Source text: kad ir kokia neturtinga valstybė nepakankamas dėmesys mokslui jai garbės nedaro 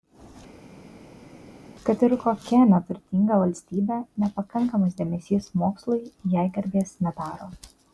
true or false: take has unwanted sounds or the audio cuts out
false